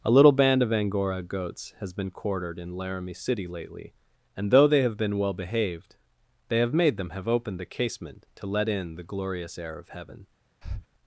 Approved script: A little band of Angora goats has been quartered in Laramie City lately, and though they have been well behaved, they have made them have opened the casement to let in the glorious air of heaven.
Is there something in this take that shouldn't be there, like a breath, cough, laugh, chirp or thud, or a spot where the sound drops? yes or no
yes